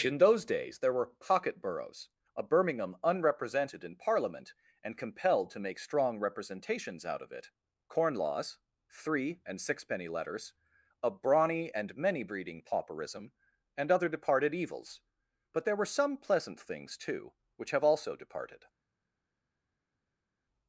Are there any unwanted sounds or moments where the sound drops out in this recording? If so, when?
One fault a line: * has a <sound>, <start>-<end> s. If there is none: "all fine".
all fine